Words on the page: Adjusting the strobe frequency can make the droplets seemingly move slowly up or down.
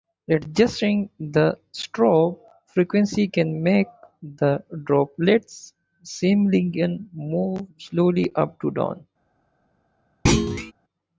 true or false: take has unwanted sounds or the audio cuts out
true